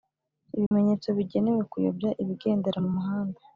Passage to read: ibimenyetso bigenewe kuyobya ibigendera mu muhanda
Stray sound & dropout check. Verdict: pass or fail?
fail